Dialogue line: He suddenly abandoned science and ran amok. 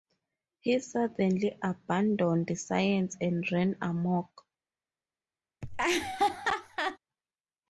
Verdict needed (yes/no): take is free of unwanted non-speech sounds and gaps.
no